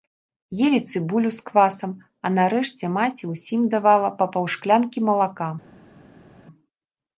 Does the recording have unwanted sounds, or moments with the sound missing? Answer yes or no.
no